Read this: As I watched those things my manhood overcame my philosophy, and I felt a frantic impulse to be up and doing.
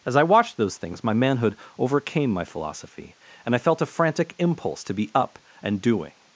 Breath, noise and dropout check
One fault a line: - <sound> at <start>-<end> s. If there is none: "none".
none